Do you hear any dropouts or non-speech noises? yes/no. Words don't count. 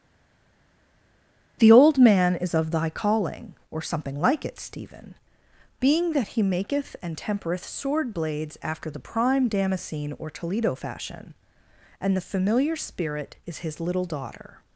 no